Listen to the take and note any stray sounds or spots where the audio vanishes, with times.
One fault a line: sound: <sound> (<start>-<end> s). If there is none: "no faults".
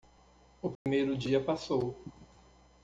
sound: dropout (0.8-0.9 s)